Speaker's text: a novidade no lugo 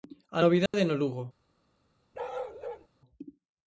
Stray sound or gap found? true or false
true